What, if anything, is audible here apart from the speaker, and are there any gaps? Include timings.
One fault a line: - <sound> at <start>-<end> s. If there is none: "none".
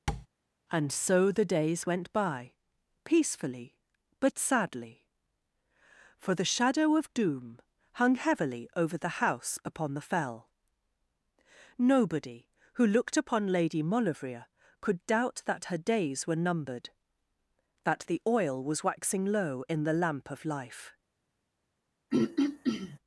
- tap at 0.1-0.3 s
- throat clearing at 22.1-23.0 s